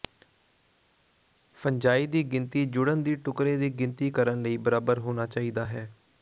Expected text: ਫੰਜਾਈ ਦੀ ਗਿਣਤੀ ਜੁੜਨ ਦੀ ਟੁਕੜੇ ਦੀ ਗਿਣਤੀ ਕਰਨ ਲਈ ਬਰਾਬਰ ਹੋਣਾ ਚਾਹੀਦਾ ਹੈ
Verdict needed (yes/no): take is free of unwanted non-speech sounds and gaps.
yes